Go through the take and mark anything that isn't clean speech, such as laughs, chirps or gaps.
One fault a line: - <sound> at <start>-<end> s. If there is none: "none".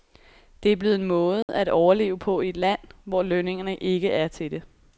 - dropout at 1.4-1.5 s